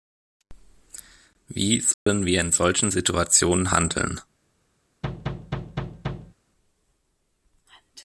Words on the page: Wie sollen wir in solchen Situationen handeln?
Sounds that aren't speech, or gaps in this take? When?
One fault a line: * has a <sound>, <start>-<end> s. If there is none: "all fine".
* has a dropout, 1.9-2.1 s
* has a thud, 5.0-6.3 s